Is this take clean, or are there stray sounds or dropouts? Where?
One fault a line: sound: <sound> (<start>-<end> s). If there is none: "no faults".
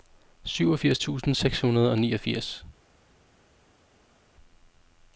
no faults